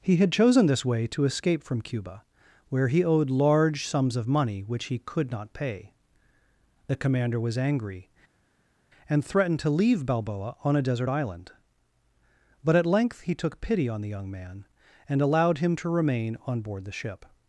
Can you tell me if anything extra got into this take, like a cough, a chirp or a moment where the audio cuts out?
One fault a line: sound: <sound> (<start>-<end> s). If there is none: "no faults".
no faults